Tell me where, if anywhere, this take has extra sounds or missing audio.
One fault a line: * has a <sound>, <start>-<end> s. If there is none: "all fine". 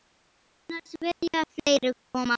* has a dropout, 1.1-1.2 s